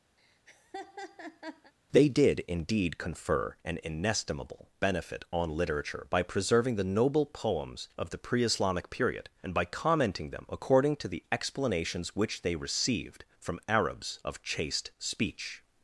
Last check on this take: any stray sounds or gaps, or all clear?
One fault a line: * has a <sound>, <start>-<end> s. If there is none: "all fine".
* has a laugh, 0.2-1.7 s